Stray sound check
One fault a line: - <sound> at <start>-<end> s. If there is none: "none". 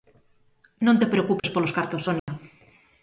- dropout at 1.4-1.4 s
- dropout at 2.2-2.3 s